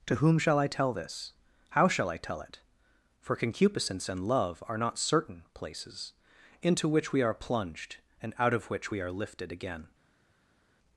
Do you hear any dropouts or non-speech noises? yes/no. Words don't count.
no